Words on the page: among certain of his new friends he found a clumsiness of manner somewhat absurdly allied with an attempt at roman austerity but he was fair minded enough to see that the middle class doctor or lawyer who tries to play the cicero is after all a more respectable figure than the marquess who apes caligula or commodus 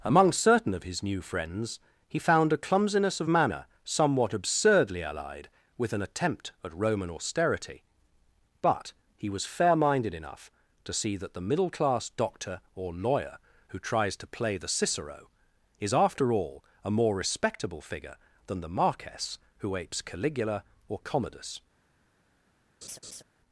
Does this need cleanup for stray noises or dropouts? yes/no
yes